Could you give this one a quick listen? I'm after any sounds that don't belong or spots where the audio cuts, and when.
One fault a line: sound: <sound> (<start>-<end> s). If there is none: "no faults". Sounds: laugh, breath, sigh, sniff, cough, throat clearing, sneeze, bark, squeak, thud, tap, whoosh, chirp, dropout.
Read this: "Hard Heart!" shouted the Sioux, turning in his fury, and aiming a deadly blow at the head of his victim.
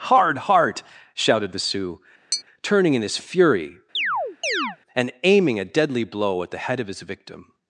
sound: tap (2.3-2.4 s)
sound: chirp (3.9-4.8 s)